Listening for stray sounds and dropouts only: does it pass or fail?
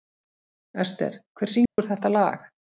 fail